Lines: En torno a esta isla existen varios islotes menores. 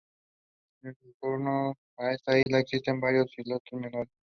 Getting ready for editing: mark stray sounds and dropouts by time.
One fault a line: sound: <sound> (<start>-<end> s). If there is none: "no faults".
sound: dropout (2.4-2.5 s)